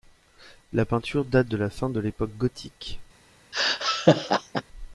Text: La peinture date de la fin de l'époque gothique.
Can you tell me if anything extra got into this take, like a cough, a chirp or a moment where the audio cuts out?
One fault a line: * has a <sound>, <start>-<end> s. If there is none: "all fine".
* has a laugh, 3.5-4.6 s